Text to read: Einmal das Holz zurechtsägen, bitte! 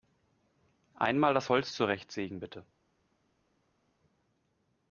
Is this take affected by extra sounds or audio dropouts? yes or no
no